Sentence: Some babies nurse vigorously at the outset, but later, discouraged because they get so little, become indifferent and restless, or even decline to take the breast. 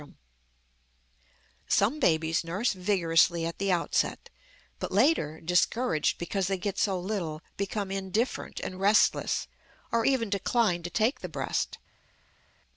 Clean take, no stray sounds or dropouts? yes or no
yes